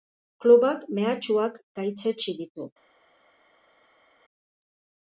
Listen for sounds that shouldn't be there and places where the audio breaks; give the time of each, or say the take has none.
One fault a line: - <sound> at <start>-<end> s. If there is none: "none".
none